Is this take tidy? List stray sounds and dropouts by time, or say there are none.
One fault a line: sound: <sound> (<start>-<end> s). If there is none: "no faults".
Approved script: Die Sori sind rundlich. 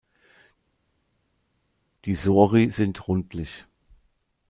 no faults